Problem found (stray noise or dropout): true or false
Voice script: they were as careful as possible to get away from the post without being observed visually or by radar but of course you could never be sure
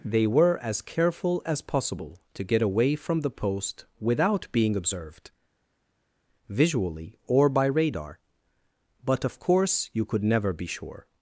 false